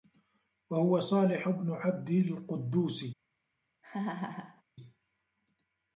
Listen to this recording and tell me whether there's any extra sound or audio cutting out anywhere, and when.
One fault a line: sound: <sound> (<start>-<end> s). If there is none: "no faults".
sound: laugh (3.8-4.6 s)